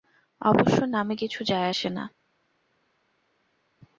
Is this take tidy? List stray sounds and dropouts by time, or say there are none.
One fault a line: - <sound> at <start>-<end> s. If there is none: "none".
none